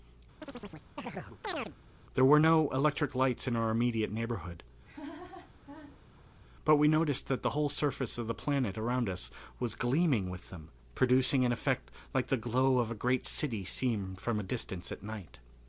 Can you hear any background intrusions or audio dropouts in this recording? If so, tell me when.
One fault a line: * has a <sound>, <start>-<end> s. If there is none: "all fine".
* has a chirp, 0.4-1.8 s
* has a laugh, 4.8-6.4 s